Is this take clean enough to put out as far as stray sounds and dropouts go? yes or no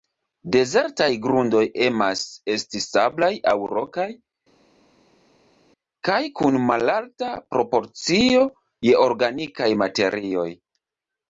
yes